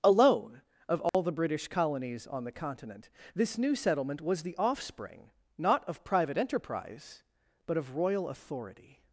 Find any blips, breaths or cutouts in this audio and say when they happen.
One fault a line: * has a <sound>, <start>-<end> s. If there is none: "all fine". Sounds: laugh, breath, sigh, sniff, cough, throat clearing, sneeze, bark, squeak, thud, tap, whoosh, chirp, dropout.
* has a dropout, 1.1-1.1 s